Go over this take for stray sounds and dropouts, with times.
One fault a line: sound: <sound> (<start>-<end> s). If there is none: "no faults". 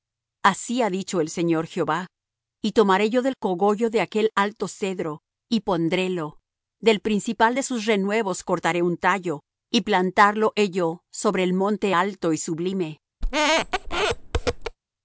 sound: squeak (13.2-14.8 s)